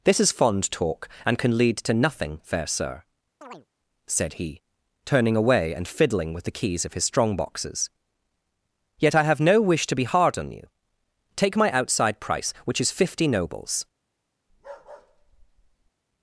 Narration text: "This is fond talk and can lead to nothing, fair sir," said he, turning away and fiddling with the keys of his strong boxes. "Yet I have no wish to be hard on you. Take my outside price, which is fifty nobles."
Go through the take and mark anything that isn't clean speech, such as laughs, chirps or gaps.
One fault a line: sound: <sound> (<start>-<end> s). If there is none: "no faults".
sound: chirp (3.4-3.7 s)
sound: bark (14.5-15.9 s)